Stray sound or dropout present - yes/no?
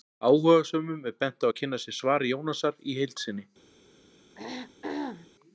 yes